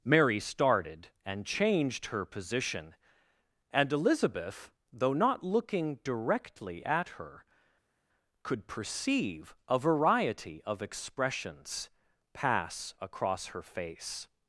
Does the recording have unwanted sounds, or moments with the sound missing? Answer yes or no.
no